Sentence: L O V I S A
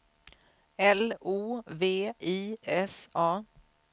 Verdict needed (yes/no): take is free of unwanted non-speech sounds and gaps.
yes